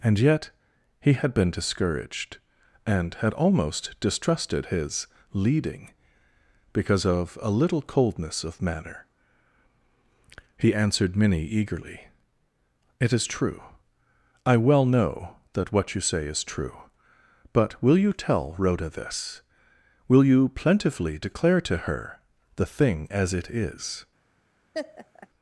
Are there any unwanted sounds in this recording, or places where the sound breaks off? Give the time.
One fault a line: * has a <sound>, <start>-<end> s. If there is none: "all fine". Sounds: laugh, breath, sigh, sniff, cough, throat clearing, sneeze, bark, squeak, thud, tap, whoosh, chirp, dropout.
* has a laugh, 24.7-25.3 s